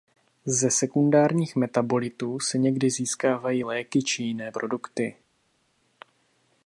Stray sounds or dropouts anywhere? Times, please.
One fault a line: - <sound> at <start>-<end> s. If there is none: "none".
none